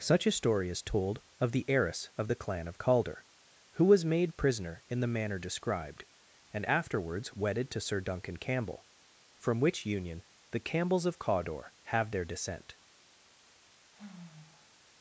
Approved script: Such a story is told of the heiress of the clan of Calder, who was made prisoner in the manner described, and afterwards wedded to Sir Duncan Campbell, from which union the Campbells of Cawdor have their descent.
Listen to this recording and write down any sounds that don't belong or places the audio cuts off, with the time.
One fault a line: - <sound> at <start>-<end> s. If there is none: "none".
- sigh at 13.9-14.8 s